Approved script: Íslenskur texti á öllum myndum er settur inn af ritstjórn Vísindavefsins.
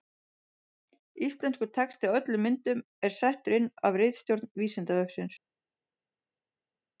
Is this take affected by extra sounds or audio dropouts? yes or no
no